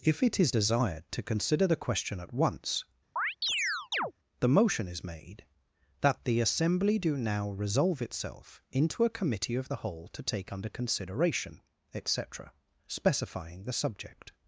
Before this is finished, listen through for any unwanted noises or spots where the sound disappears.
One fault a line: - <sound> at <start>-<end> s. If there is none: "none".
- chirp at 3.2-4.1 s